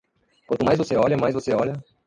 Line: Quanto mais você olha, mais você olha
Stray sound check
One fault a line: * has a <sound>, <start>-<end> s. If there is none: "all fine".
all fine